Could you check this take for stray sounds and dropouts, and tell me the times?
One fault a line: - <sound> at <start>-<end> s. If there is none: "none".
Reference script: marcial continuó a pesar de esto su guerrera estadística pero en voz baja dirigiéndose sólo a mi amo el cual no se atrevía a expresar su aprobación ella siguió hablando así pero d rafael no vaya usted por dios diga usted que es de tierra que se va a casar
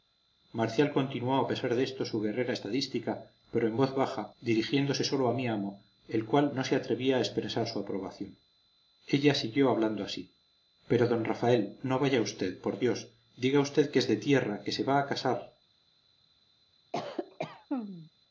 - cough at 16.9-18.1 s